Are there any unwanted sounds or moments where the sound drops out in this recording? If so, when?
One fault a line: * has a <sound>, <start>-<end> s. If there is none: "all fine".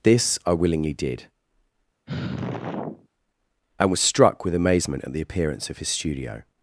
* has a sigh, 2.1-3.1 s